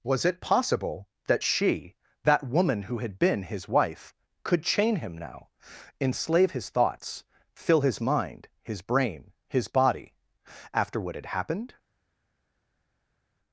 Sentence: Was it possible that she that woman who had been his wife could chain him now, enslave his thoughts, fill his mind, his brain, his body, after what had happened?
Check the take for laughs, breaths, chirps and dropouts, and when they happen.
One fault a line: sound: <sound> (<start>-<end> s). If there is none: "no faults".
no faults